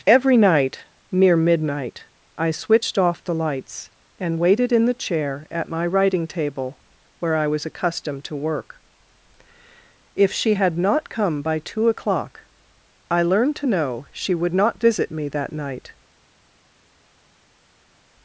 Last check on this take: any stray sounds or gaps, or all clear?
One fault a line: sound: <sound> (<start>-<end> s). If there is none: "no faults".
no faults